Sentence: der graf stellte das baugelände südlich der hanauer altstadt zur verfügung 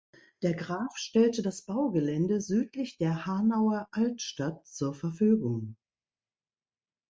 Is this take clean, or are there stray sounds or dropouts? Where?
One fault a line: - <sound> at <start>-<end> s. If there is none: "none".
none